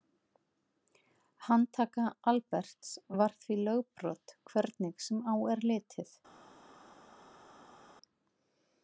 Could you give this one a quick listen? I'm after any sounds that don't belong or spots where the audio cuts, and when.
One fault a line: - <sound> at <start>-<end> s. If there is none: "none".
none